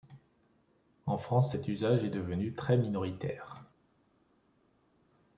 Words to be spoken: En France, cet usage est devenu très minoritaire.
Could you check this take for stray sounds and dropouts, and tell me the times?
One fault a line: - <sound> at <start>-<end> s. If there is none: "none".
none